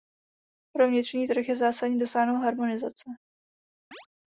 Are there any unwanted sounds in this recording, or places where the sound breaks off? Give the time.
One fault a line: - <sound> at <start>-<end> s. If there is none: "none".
- chirp at 3.9-4.1 s